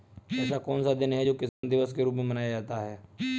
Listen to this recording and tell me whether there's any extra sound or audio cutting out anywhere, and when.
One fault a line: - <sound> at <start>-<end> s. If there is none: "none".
- dropout at 1.5-1.6 s